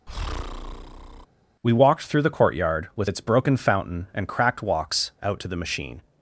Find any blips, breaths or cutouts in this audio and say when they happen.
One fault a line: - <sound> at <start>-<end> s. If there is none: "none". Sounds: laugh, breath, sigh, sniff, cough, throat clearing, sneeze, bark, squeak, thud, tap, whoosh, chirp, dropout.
- breath at 0.1-1.3 s